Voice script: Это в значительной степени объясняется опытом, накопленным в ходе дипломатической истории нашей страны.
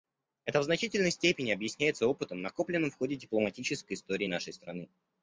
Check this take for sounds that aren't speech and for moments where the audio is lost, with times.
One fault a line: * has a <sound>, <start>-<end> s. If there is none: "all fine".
all fine